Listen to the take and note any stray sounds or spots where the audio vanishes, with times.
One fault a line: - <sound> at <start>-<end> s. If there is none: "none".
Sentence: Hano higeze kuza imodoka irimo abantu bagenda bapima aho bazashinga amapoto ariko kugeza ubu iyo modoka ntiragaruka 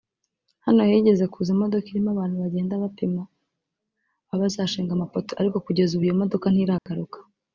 - dropout at 6.8-6.9 s